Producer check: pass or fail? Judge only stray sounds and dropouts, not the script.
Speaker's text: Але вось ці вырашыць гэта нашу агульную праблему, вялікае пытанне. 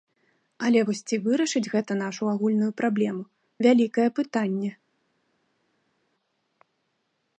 pass